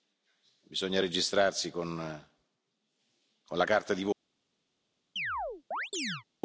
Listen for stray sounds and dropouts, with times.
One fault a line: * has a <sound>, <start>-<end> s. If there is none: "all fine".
* has a chirp, 5.2-6.2 s